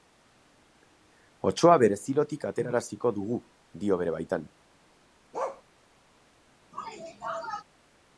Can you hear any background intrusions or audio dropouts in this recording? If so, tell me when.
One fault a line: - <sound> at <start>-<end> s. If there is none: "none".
- bark at 5.3-5.6 s
- sneeze at 6.7-7.6 s